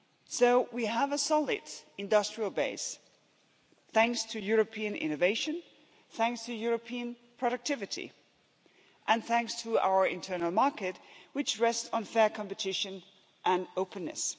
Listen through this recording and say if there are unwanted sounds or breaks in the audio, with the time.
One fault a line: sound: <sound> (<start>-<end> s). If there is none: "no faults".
no faults